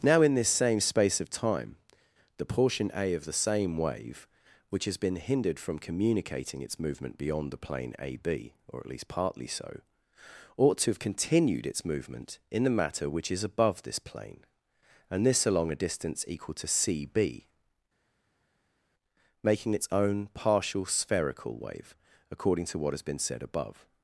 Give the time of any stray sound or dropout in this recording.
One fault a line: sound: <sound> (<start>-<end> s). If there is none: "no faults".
no faults